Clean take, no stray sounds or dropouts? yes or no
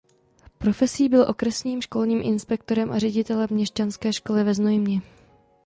yes